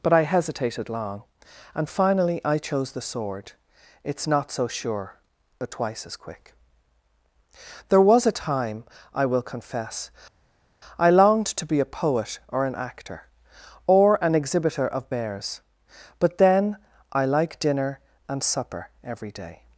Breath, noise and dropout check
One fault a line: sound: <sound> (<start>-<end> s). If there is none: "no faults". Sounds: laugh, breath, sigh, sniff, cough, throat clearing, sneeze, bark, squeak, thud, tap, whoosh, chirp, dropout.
no faults